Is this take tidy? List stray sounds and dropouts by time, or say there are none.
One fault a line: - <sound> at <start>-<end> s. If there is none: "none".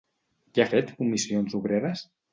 none